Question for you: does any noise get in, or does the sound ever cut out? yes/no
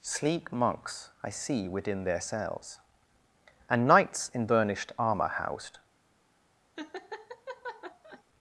yes